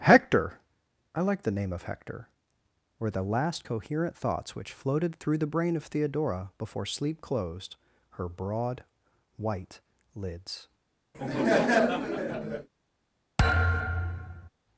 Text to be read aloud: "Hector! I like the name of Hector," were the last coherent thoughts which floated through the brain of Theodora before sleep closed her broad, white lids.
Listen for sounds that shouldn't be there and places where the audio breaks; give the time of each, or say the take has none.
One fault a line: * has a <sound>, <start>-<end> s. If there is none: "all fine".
* has a laugh, 11.1-12.7 s
* has a thud, 13.4-14.5 s